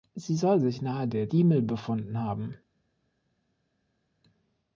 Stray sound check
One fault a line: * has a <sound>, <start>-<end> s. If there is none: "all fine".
all fine